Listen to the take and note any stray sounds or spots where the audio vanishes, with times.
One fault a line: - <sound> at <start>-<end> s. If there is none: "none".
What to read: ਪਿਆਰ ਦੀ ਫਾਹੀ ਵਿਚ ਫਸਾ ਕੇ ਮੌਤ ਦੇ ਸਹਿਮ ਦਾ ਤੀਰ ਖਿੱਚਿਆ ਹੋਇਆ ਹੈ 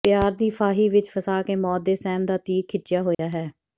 - dropout at 3.1-3.2 s